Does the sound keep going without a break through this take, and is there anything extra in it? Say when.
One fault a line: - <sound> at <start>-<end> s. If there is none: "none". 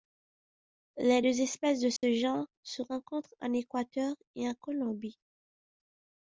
- dropout at 2.0-2.0 s